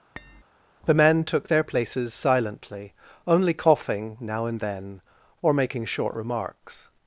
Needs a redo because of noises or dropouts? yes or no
yes